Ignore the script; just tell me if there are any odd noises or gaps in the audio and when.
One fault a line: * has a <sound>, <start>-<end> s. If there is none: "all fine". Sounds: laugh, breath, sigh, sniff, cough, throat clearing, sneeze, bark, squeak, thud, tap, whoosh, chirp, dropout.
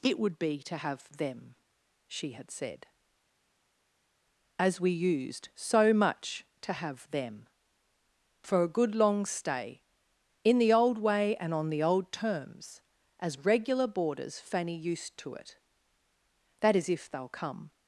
all fine